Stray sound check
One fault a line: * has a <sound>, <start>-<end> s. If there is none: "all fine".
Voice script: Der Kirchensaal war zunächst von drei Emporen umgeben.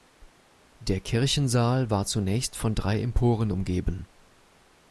all fine